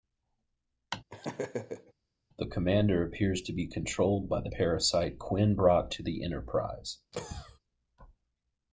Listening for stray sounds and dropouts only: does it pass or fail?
fail